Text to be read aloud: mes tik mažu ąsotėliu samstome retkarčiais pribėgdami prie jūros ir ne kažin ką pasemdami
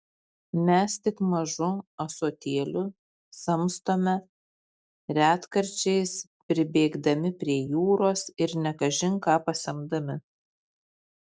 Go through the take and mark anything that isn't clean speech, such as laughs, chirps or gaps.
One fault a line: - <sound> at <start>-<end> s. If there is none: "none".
none